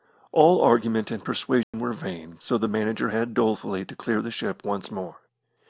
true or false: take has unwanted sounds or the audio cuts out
true